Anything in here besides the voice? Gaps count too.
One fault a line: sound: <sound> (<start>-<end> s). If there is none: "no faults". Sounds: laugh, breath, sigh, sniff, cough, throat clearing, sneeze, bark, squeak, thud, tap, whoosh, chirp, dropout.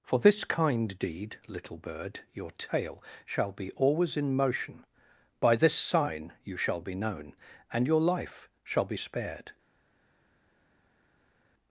no faults